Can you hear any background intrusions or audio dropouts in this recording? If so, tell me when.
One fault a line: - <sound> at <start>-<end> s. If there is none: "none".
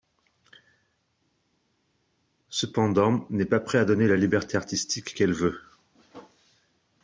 none